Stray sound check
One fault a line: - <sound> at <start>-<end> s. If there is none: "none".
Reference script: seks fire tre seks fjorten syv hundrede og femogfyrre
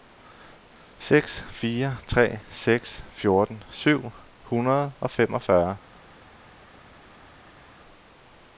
none